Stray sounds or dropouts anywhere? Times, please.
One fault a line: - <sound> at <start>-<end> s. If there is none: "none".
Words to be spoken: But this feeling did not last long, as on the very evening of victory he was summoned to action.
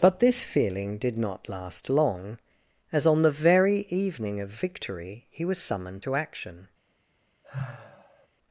- sigh at 7.4-8.3 s